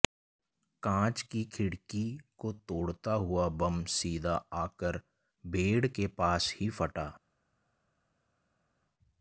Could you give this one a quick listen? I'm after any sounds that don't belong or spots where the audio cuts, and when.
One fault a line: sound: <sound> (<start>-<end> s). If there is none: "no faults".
no faults